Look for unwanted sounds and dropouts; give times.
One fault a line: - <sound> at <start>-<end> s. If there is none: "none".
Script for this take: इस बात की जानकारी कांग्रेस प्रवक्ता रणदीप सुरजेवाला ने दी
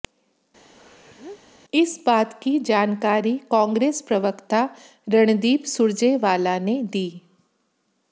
- sneeze at 0.7-1.4 s